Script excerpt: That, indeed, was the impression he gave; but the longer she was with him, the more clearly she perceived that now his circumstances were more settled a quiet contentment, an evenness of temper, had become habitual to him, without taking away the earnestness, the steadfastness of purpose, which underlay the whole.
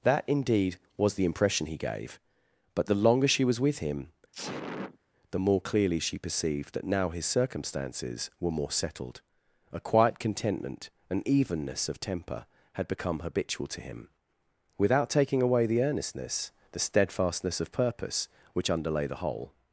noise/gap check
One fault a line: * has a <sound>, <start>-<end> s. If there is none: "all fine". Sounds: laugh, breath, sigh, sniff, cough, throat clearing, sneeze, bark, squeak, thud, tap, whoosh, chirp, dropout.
* has a sneeze, 4.3-5.0 s